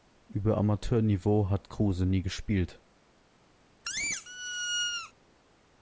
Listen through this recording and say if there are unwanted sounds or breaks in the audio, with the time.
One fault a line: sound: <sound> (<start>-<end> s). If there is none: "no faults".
sound: squeak (3.8-5.1 s)